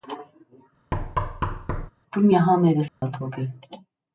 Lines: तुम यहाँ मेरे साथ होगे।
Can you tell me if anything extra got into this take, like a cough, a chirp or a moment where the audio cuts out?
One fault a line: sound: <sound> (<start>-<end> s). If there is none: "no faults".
sound: thud (0.9-1.9 s)
sound: dropout (2.9-3.0 s)